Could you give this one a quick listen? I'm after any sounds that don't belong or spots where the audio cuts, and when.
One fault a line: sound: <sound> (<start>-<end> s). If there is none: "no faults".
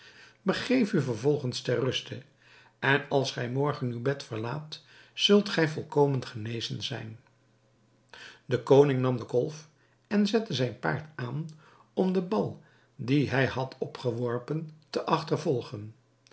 no faults